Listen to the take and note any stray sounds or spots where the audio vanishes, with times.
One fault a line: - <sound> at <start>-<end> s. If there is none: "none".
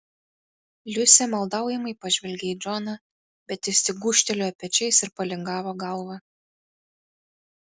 none